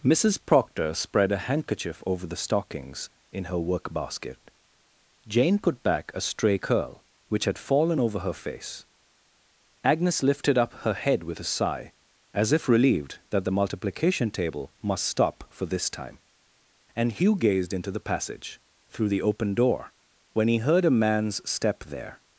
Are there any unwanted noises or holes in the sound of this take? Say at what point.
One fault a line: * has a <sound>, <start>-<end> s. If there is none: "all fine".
all fine